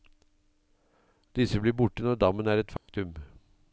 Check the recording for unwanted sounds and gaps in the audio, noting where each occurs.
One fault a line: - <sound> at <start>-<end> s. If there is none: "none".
- dropout at 2.8-2.9 s